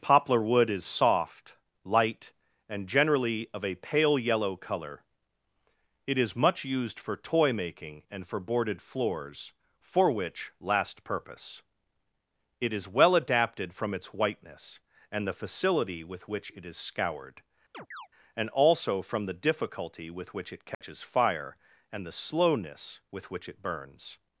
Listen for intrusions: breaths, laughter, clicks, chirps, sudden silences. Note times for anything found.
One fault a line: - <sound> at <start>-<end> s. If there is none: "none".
- chirp at 17.7-18.1 s
- dropout at 20.7-20.8 s